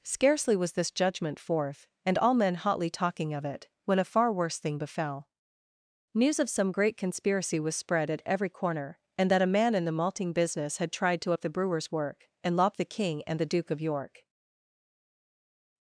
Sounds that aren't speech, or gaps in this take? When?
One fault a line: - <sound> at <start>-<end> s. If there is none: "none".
none